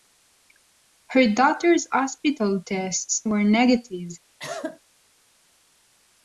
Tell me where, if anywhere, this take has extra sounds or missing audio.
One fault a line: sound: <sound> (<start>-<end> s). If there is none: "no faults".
sound: cough (4.4-4.8 s)